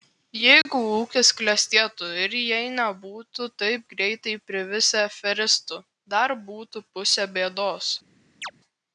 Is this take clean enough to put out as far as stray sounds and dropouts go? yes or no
no